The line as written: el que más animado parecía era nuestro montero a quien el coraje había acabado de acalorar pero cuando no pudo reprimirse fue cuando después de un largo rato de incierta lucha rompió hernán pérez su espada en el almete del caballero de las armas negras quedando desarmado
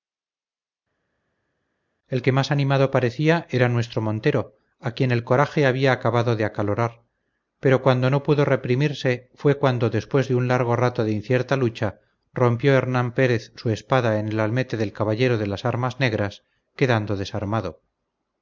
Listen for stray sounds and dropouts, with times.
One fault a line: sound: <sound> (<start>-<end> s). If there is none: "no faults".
no faults